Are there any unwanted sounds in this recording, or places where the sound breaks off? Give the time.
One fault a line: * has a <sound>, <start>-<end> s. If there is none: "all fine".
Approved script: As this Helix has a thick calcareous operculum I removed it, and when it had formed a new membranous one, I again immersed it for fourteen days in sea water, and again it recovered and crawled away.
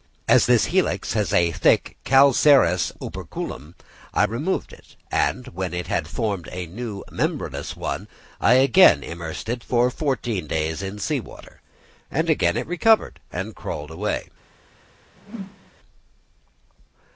* has a whoosh, 15.2-15.7 s